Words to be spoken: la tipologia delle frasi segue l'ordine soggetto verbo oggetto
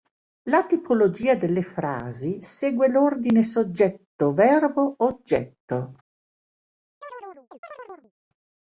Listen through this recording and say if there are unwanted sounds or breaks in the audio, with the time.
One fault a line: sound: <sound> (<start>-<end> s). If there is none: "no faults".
sound: chirp (7.0-8.1 s)